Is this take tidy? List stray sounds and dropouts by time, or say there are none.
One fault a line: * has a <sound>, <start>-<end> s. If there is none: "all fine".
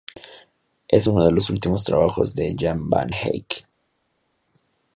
all fine